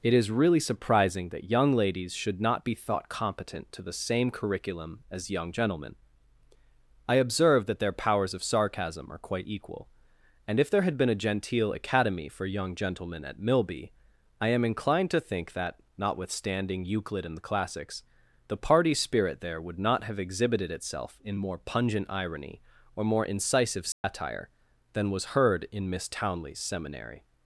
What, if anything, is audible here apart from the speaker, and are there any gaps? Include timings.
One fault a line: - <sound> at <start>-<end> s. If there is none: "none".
- dropout at 23.9-24.0 s